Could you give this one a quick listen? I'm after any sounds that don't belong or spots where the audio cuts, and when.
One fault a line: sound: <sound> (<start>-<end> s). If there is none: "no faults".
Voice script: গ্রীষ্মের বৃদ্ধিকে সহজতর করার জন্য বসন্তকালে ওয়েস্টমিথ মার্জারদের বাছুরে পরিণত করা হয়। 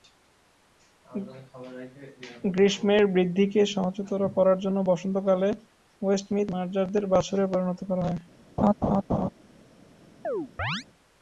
sound: laugh (8.6-9.3 s)
sound: chirp (10.2-10.8 s)